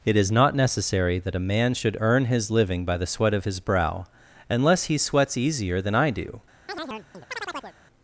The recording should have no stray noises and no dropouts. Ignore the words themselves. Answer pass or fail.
fail